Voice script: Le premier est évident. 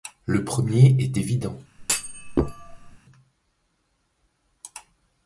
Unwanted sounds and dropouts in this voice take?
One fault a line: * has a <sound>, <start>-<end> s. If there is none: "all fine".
* has a thud, 1.8-3.0 s